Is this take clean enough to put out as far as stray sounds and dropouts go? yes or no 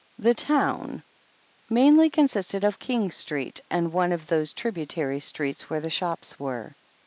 yes